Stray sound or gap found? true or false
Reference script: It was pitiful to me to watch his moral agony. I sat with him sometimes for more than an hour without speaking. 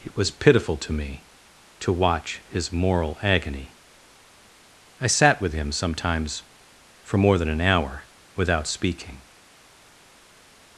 false